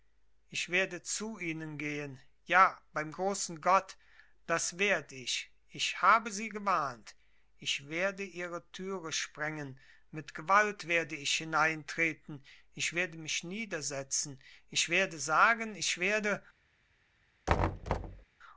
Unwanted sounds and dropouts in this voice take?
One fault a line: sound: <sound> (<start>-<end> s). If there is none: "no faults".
sound: thud (17.5-18.3 s)